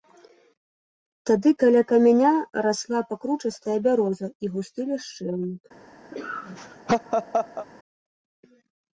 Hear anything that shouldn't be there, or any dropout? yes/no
yes